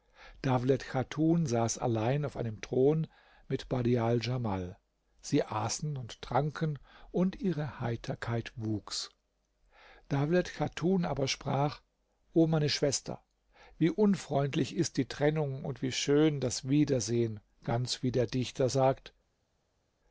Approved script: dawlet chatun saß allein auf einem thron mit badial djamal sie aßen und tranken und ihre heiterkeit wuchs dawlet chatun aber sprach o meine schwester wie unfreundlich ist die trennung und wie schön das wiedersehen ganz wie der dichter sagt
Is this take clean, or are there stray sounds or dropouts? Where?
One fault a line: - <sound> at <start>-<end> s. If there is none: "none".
none